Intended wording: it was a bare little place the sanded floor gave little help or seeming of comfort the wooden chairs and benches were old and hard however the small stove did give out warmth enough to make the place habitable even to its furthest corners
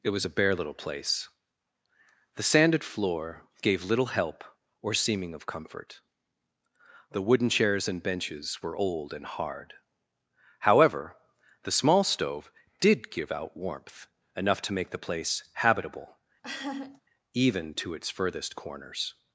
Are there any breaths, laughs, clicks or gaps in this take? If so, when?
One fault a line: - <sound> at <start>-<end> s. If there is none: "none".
- laugh at 16.4-17.0 s